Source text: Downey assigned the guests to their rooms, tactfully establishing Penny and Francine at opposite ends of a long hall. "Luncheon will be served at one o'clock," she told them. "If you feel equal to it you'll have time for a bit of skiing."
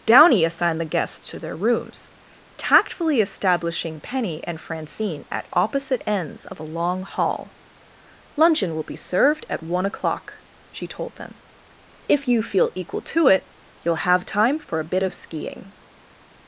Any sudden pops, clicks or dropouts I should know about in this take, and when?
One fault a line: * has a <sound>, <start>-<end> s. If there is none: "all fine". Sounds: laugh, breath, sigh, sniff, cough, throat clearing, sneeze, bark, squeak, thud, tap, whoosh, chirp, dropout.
all fine